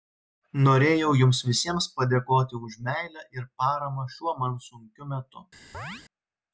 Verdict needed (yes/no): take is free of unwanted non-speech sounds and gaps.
no